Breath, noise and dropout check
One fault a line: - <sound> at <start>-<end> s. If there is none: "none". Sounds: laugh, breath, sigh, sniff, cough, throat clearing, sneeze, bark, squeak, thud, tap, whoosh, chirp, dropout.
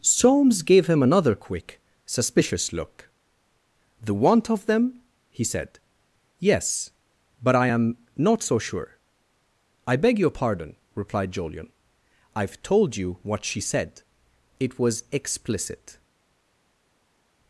none